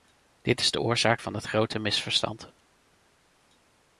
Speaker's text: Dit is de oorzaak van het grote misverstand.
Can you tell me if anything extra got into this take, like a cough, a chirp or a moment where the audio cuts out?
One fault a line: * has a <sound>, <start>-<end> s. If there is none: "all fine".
all fine